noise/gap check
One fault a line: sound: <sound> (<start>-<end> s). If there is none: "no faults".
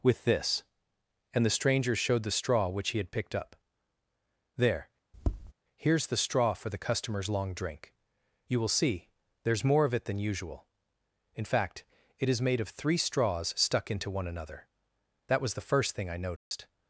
sound: tap (5.1-5.5 s)
sound: dropout (16.4-16.5 s)